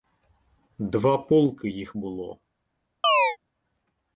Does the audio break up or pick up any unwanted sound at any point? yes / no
yes